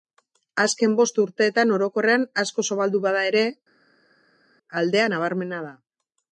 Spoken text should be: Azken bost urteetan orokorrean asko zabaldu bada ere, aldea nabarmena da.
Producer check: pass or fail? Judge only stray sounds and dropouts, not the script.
pass